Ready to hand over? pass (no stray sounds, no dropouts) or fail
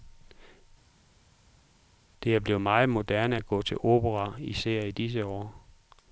pass